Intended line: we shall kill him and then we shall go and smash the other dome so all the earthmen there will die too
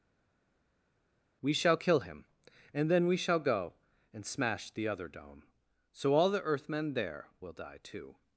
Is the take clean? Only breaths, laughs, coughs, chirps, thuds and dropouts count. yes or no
yes